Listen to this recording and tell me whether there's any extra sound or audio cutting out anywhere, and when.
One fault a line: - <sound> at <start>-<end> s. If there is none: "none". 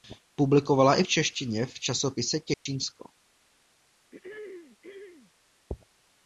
- dropout at 2.5-2.7 s
- throat clearing at 4.1-5.3 s